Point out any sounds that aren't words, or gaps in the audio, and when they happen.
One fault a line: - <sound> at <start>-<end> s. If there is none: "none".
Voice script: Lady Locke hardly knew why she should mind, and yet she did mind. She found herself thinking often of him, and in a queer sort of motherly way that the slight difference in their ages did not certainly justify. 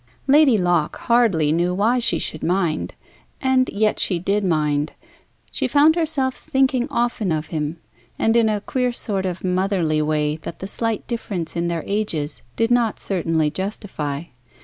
none